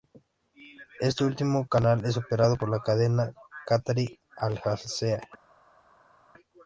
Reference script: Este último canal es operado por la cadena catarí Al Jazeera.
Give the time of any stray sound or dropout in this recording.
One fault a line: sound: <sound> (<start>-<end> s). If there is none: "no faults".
no faults